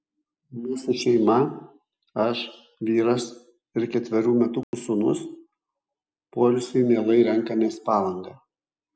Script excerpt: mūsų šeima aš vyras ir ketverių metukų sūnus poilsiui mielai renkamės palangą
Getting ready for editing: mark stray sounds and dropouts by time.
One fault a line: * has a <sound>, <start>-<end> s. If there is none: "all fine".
* has a dropout, 4.6-4.7 s